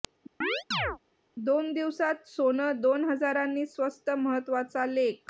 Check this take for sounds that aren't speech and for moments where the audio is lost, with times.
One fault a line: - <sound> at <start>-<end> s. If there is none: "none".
- chirp at 0.4-1.0 s